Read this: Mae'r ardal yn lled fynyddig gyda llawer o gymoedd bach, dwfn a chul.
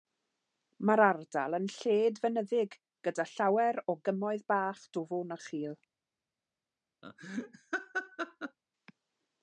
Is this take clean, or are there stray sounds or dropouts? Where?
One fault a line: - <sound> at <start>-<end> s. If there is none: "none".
- laugh at 7.0-8.6 s